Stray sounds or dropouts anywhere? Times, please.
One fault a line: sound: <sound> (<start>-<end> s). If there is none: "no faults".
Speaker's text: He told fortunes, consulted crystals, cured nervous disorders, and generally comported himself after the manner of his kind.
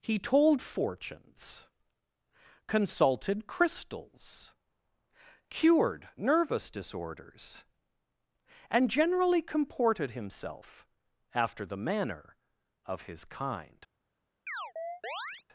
sound: chirp (14.5-15.4 s)